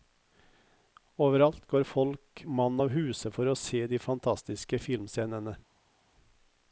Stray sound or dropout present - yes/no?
no